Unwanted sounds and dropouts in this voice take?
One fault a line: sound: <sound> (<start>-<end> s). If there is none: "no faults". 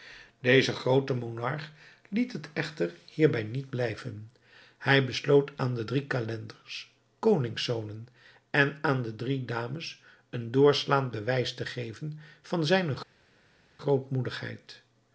no faults